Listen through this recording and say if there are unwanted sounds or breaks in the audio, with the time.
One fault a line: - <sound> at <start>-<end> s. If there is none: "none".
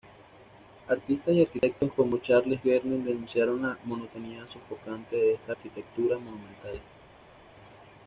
none